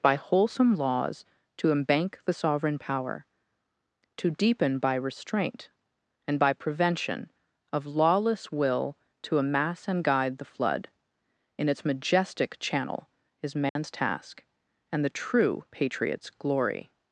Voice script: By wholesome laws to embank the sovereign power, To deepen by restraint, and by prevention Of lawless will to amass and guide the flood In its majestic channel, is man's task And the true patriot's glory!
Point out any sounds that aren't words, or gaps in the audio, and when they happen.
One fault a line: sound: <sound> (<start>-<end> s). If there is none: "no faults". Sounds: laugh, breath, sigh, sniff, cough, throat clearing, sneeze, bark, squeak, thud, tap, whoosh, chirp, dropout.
sound: dropout (13.7-13.8 s)